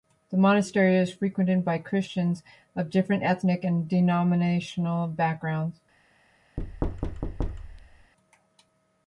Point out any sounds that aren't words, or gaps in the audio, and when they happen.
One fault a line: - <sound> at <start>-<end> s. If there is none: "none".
- thud at 6.6-8.1 s